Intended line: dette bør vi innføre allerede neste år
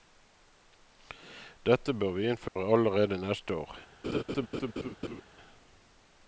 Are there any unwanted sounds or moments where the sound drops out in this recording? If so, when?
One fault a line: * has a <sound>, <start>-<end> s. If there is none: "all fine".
* has a dropout, 2.5-2.6 s
* has a laugh, 4.0-5.2 s